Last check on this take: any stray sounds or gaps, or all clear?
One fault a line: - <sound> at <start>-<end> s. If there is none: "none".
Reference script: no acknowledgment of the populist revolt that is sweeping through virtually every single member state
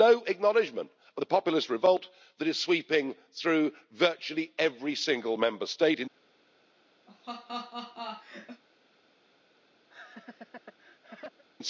- laugh at 7.1-8.6 s
- laugh at 9.9-11.4 s